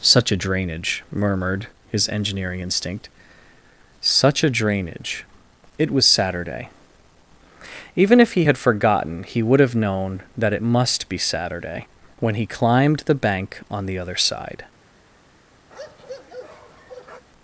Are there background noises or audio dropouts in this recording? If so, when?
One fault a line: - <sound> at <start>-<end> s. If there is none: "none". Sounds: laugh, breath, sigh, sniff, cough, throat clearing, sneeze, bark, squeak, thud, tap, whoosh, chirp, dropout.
- bark at 15.7-17.2 s